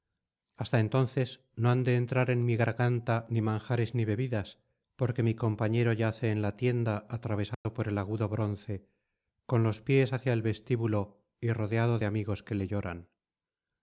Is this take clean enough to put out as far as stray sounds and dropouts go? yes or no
no